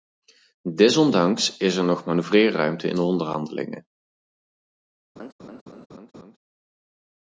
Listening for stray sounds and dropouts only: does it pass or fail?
fail